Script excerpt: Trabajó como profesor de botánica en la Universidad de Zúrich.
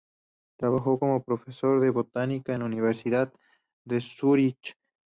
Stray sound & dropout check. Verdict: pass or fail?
pass